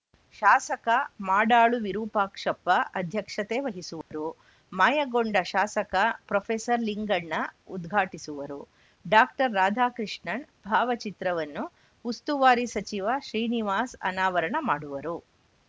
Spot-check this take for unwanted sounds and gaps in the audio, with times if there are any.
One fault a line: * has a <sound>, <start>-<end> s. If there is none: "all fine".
* has a dropout, 4.0-4.1 s